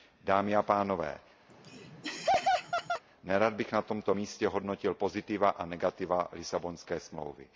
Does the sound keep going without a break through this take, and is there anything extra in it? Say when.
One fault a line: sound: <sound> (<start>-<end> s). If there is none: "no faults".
sound: laugh (1.5-3.0 s)